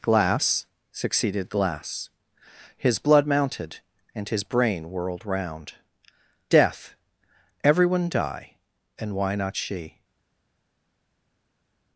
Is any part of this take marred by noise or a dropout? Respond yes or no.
no